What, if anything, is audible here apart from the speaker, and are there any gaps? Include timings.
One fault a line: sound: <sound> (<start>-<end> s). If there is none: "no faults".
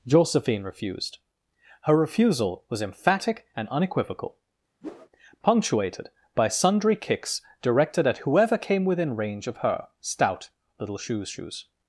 sound: whoosh (4.8-5.1 s)